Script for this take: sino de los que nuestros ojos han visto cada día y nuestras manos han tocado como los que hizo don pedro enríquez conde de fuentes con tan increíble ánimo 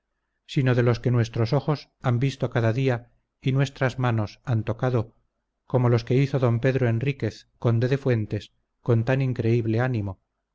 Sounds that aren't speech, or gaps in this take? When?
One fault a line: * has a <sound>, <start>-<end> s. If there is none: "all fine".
all fine